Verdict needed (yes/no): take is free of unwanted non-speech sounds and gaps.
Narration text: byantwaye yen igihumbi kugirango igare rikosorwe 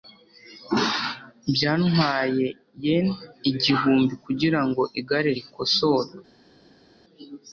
yes